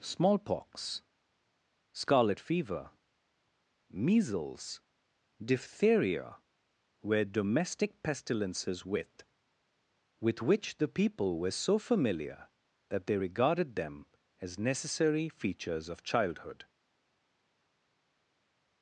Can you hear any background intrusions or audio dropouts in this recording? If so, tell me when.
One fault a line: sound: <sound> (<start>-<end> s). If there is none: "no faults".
no faults